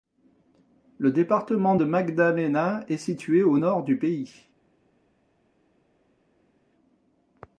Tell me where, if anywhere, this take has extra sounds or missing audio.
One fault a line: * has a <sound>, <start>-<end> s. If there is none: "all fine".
all fine